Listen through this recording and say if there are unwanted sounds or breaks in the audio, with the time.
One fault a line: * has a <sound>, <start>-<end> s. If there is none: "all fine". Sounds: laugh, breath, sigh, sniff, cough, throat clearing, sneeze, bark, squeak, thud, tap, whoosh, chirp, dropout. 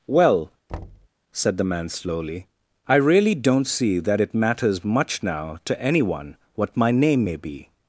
* has a thud, 0.7-1.1 s